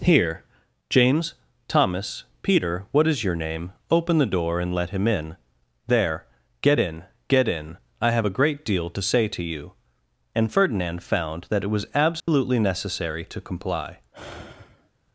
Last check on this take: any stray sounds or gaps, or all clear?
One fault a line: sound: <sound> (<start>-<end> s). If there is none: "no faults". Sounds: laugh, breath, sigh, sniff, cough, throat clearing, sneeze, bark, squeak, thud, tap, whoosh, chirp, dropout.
sound: dropout (12.2-12.3 s)
sound: sigh (14.1-14.9 s)